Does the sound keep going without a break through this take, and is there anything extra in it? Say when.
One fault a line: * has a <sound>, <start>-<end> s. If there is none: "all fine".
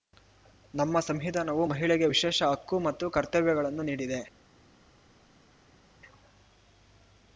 all fine